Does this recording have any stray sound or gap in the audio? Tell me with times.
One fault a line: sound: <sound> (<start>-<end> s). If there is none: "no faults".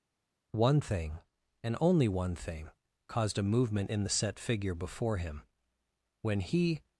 no faults